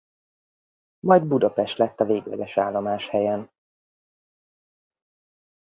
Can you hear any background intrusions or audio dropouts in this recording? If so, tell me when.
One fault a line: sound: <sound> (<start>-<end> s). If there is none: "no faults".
no faults